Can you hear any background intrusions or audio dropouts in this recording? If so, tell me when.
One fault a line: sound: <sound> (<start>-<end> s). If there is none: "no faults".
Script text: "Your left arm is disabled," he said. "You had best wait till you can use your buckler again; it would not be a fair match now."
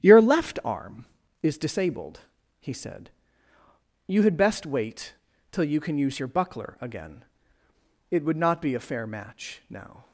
no faults